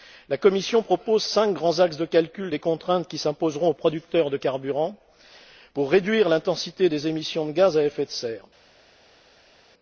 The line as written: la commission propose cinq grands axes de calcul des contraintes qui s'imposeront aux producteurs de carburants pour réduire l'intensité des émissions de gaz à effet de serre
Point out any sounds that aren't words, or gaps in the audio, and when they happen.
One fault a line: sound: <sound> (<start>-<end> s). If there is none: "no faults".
no faults